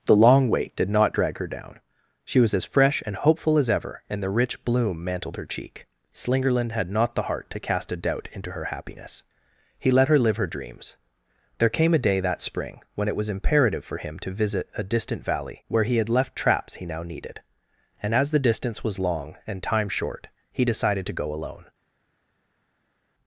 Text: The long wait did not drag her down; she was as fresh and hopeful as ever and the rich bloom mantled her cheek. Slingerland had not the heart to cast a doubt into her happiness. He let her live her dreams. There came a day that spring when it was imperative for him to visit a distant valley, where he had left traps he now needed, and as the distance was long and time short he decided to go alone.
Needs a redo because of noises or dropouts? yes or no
no